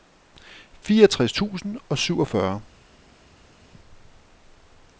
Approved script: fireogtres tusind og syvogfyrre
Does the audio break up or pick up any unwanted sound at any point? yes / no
no